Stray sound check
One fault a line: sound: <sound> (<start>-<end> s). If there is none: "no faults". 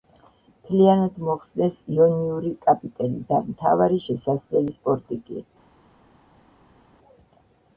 no faults